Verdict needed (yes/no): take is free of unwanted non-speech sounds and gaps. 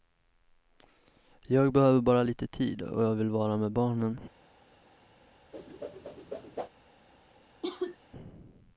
no